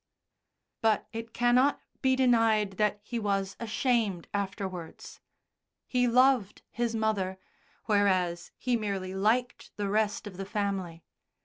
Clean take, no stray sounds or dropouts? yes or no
yes